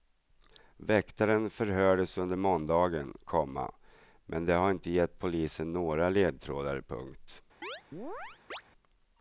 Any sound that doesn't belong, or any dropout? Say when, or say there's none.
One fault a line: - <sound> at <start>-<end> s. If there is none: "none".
- chirp at 7.6-8.6 s